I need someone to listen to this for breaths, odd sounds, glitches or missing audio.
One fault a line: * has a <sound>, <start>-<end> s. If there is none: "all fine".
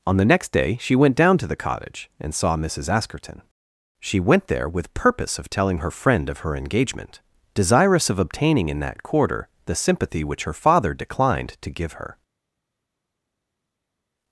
all fine